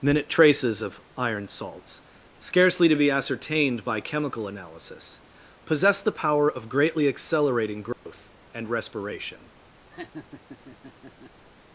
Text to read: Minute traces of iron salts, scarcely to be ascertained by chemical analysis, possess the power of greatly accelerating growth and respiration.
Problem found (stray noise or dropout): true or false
true